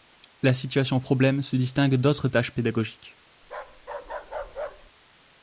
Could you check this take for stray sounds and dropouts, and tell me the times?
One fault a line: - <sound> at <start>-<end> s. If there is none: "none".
- bark at 3.4-4.9 s